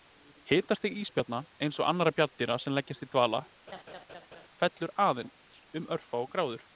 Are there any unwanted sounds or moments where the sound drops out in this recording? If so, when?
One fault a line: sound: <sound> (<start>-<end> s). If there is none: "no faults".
sound: laugh (3.7-4.5 s)